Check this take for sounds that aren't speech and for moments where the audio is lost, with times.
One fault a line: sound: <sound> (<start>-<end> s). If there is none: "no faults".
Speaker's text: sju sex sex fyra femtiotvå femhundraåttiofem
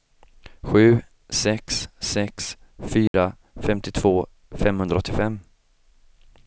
sound: dropout (3.1-3.1 s)